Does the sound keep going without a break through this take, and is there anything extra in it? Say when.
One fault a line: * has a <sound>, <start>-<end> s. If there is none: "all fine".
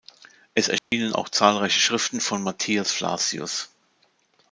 * has a dropout, 0.8-0.9 s